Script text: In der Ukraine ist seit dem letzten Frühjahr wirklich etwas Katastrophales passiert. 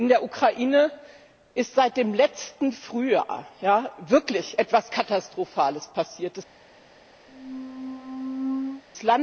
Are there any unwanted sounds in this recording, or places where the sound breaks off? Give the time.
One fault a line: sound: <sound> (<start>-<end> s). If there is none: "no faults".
sound: squeak (7.3-8.8 s)